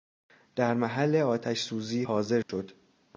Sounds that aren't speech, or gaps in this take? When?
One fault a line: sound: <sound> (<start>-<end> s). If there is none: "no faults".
sound: dropout (2.4-2.5 s)